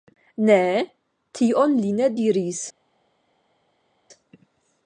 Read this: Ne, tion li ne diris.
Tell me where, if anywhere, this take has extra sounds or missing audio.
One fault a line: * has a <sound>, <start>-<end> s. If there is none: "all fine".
all fine